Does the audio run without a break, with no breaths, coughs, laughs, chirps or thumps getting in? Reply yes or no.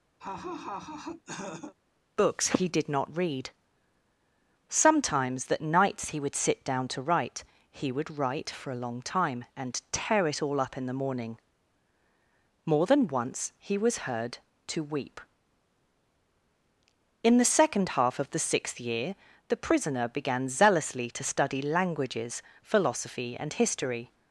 no